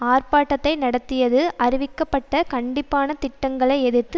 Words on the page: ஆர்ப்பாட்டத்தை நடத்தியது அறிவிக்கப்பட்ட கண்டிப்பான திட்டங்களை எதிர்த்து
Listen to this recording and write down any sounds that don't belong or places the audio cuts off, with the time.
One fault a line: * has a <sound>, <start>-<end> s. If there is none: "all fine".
all fine